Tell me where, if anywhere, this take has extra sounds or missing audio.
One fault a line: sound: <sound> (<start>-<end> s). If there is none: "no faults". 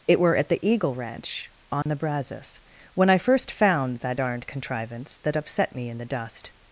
sound: dropout (1.8-1.9 s)